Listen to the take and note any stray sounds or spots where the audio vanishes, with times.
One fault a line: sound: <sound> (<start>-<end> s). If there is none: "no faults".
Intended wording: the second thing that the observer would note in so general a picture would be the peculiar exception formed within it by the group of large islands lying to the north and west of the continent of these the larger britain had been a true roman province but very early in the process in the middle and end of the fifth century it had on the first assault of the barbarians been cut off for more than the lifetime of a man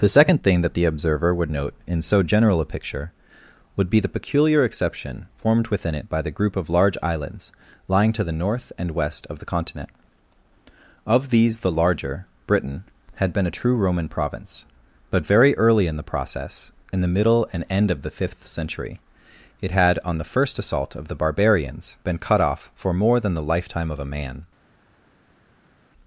no faults